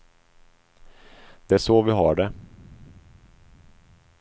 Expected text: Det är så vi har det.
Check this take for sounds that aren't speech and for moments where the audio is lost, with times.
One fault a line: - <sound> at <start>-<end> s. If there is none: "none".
none